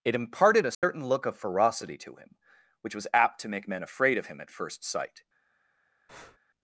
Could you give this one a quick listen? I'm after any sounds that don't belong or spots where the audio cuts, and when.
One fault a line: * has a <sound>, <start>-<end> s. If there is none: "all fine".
* has a dropout, 0.7-0.8 s
* has a breath, 6.1-6.4 s